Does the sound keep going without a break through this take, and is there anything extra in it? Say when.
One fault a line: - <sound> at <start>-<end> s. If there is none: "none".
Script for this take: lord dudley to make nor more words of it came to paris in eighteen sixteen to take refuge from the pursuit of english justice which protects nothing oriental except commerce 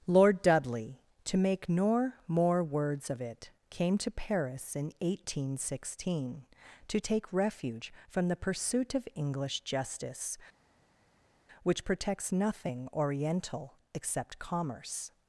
none